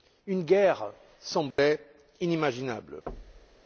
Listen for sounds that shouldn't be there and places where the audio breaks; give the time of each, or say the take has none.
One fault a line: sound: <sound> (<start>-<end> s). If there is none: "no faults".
sound: dropout (1.5-1.6 s)
sound: thud (3.1-3.6 s)